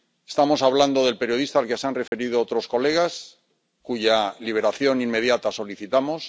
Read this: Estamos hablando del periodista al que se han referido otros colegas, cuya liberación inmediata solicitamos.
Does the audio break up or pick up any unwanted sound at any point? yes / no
yes